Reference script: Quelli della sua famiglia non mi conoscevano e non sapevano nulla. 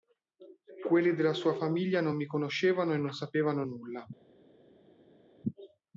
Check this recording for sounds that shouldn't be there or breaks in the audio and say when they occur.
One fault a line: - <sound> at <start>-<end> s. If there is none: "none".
none